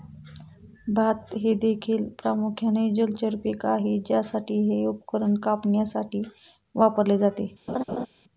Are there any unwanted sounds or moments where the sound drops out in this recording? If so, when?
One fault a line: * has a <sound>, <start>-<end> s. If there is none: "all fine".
* has a laugh, 7.7-8.1 s